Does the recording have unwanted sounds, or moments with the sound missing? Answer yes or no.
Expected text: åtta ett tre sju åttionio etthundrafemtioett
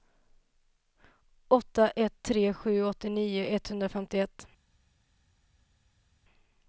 no